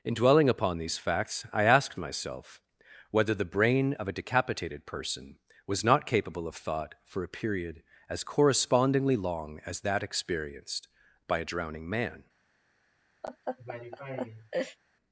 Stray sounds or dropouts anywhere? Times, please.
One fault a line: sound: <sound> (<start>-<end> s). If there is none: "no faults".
sound: laugh (13.2-14.8 s)